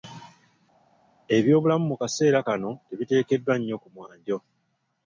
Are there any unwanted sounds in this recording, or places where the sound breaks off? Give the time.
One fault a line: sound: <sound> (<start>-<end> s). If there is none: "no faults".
no faults